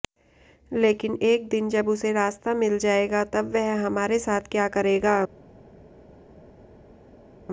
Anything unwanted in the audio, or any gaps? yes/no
no